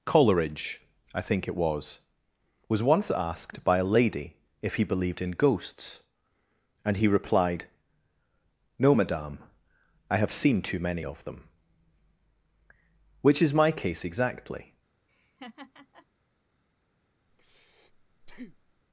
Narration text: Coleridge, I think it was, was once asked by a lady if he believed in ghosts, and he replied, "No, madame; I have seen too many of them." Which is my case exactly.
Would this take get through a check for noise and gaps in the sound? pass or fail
fail